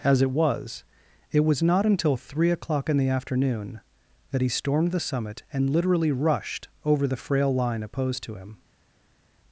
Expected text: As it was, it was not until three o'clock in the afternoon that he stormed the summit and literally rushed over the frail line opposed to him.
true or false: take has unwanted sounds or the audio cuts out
false